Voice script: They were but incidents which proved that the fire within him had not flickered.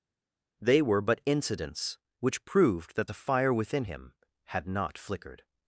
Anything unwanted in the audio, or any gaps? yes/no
no